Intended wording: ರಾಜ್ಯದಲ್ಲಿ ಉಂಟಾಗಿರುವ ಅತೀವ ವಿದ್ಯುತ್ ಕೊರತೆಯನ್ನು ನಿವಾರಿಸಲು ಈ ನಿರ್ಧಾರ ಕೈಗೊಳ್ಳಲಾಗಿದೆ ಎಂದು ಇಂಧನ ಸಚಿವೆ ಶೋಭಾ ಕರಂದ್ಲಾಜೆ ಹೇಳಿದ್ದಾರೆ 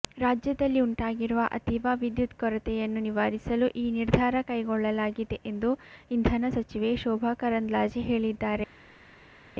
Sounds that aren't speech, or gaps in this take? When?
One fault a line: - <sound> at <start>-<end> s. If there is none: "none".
none